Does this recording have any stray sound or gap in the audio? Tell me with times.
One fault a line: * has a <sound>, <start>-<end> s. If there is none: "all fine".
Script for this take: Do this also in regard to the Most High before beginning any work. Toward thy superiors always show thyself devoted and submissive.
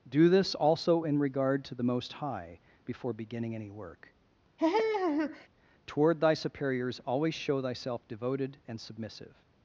* has a laugh, 4.6-5.5 s